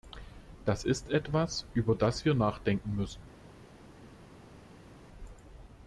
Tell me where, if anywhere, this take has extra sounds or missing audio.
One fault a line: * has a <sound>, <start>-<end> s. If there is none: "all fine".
all fine